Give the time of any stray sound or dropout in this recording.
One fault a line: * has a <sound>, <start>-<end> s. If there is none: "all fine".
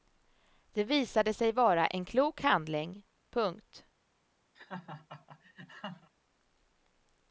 * has a laugh, 4.5-6.1 s